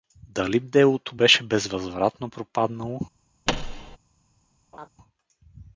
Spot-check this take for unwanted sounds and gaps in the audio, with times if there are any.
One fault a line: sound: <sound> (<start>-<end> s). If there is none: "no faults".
sound: thud (3.5-4.0 s)
sound: laugh (4.7-4.9 s)